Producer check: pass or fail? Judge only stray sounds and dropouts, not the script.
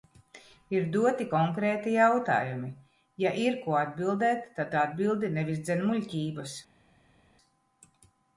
pass